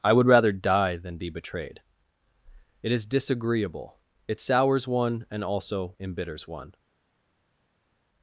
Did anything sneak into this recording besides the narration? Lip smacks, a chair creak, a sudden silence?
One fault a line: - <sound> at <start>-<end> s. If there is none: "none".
none